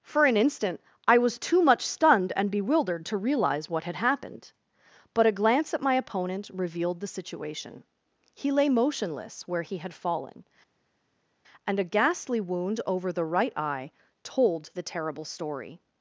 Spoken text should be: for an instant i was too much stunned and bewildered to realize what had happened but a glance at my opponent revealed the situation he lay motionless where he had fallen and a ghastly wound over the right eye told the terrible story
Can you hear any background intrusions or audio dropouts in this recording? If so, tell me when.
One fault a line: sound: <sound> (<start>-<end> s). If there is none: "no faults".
no faults